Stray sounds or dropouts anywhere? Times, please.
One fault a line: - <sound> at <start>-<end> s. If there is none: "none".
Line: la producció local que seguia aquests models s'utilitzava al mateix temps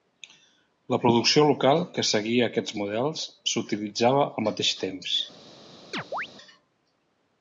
- chirp at 5.9-6.3 s